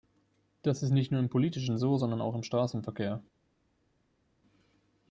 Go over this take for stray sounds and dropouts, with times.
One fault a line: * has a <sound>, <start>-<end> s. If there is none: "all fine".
all fine